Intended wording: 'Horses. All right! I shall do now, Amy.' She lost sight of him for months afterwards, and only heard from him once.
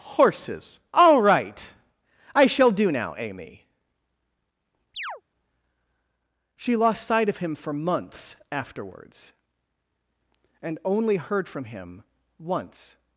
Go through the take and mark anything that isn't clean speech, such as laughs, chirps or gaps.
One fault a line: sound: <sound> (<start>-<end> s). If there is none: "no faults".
sound: chirp (4.9-5.2 s)